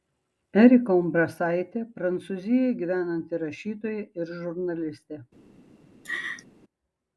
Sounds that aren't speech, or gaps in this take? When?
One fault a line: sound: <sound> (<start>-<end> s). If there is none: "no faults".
sound: laugh (6.0-6.5 s)